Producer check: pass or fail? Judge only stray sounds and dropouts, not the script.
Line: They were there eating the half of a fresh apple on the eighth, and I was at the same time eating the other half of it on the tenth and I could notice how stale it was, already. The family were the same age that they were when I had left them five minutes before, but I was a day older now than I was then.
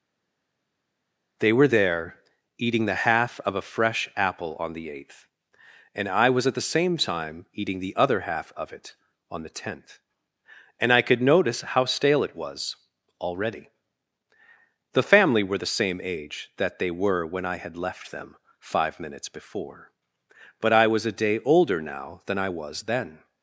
pass